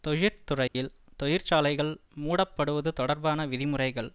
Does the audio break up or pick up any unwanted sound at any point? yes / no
yes